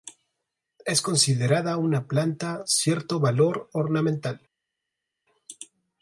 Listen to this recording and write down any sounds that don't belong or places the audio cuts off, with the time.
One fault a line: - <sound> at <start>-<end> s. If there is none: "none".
none